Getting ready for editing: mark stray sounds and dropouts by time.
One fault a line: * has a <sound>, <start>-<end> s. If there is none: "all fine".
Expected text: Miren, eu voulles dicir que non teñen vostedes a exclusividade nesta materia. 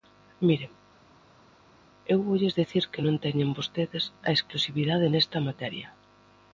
all fine